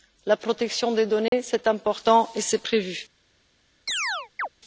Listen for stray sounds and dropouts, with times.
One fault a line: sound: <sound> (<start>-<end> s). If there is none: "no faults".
sound: dropout (1.3-1.3 s)
sound: chirp (3.9-4.5 s)